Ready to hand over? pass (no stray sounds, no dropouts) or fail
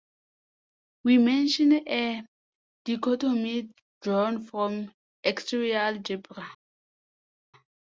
pass